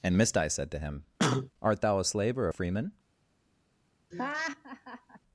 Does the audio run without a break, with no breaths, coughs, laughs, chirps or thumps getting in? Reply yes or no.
no